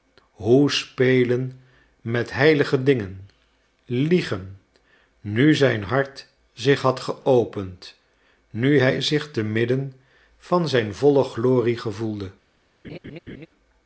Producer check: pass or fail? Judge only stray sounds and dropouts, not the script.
fail